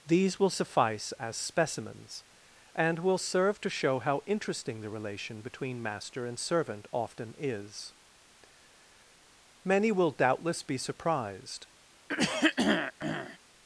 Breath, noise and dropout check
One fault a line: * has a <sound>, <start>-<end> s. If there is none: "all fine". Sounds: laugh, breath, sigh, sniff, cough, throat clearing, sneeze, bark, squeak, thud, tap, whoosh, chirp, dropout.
* has a throat clearing, 12.1-13.4 s